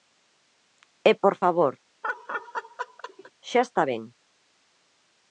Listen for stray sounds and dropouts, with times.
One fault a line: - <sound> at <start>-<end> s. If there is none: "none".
- laugh at 2.0-3.3 s